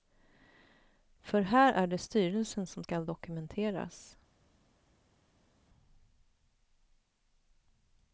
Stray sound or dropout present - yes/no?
no